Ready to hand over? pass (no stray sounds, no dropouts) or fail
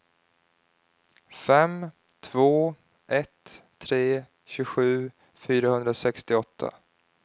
pass